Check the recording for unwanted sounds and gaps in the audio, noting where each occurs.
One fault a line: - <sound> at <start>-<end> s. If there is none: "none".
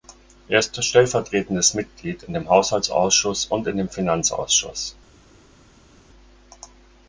none